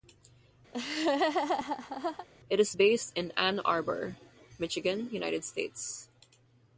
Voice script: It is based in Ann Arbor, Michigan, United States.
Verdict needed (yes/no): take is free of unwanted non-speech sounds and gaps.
no